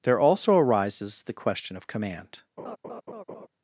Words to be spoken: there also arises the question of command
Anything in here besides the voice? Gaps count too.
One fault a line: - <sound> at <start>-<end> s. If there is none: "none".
- laugh at 2.6-3.5 s